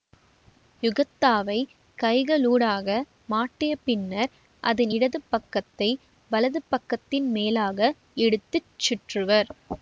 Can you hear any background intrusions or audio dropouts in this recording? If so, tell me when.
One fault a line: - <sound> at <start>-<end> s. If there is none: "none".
none